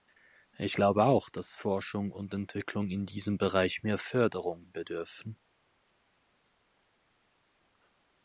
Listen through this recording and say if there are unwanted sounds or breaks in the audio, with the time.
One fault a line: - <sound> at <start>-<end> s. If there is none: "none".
none